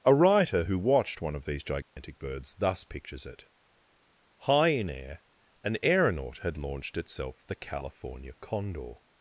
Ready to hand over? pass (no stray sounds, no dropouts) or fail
fail